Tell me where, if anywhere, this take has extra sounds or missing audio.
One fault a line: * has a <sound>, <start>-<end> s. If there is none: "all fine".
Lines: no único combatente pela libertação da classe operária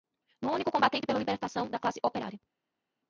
all fine